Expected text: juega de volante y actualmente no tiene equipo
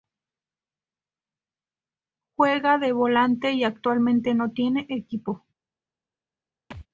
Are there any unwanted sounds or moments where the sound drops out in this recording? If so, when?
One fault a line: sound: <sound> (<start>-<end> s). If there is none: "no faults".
sound: thud (6.7-6.9 s)